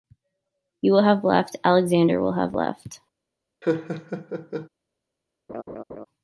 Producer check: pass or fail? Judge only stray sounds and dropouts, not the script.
fail